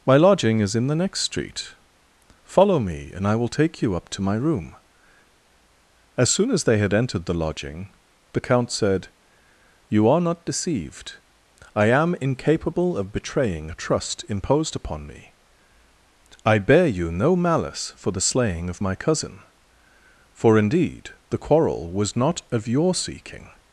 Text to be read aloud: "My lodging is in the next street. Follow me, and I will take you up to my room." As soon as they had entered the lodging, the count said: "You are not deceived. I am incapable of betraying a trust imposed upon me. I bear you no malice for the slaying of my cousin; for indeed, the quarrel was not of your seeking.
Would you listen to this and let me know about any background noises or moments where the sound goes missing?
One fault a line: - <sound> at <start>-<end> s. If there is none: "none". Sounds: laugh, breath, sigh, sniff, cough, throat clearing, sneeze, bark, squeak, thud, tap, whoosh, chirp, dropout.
none